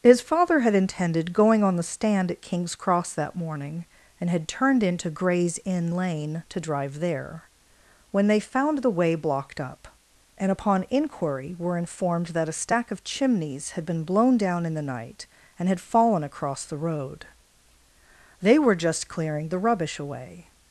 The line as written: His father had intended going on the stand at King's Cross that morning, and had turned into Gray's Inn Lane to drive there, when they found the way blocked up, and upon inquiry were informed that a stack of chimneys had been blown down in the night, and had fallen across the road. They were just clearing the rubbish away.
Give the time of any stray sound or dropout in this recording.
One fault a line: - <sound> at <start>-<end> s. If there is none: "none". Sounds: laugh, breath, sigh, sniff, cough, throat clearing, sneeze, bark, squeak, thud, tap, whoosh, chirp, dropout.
none